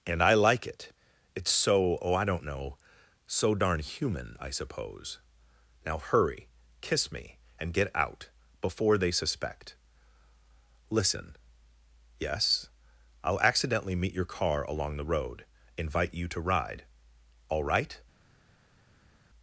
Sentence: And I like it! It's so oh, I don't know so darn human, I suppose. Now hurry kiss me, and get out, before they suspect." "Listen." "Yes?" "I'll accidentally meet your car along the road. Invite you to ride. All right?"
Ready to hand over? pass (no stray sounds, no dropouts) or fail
pass